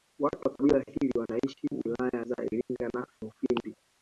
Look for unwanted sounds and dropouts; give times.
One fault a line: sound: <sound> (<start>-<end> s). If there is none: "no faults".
sound: dropout (2.6-2.7 s)